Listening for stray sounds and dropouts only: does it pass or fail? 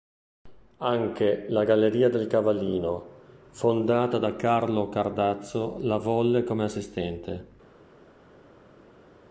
pass